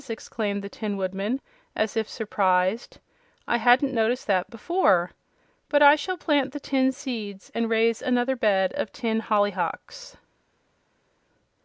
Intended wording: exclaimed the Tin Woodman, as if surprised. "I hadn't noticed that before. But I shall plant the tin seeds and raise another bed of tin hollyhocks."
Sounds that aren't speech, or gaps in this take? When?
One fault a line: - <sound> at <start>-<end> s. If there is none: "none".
none